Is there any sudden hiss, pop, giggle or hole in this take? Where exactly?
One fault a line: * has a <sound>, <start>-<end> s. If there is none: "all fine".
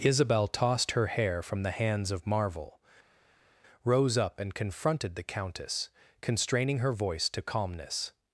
all fine